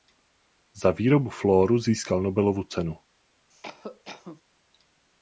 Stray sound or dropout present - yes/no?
yes